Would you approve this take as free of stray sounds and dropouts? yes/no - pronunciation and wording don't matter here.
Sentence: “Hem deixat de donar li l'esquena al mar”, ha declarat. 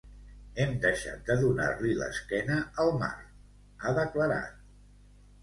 yes